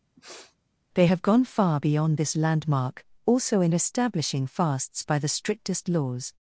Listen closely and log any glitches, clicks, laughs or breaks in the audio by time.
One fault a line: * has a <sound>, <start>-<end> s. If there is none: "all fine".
* has a sniff, 0.2-0.6 s